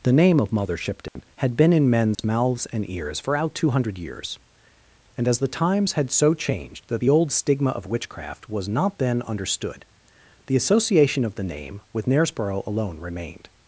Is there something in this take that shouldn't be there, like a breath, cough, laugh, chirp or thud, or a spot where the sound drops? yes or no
yes